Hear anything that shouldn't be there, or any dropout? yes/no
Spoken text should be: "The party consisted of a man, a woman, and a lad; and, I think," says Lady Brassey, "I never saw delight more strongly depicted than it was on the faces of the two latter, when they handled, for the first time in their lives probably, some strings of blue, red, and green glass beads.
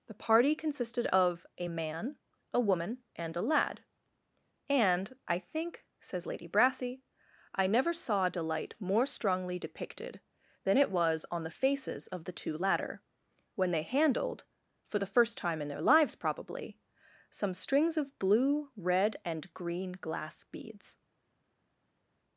no